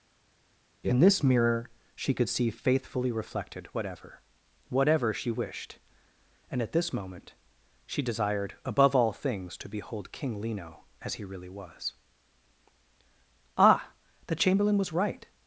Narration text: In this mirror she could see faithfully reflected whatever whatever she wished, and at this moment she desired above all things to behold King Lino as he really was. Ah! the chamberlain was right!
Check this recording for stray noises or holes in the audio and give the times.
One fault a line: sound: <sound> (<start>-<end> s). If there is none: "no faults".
no faults